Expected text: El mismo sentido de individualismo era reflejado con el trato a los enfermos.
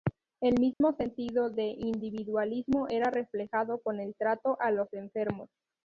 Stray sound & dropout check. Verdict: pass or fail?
fail